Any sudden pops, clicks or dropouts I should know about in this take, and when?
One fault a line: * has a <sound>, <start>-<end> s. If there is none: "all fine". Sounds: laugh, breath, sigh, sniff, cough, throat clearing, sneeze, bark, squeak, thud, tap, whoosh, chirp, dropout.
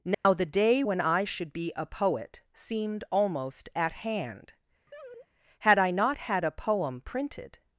* has a dropout, 0.1-0.3 s
* has a laugh, 4.9-5.3 s